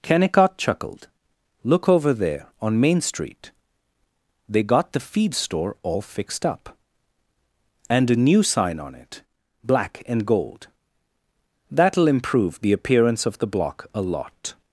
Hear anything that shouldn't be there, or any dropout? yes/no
no